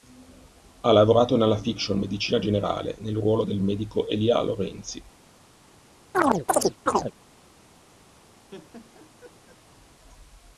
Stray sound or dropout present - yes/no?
yes